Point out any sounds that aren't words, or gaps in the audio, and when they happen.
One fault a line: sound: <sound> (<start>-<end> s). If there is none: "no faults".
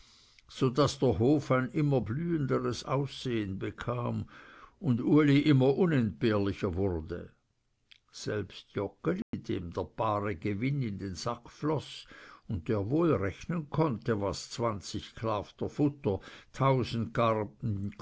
sound: dropout (9.2-9.3 s)